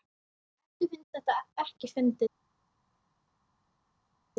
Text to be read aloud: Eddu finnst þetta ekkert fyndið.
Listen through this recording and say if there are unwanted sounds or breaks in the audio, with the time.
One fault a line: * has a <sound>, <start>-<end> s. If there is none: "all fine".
all fine